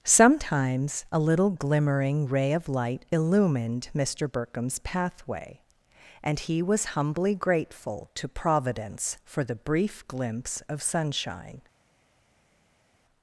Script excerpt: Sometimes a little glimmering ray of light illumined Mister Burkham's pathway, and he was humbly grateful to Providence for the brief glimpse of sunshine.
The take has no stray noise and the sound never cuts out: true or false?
true